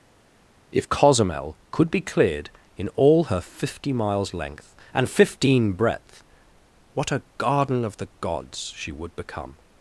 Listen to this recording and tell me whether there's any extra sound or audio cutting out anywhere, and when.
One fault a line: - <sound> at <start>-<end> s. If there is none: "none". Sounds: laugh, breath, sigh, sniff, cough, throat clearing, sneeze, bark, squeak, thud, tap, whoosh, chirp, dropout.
none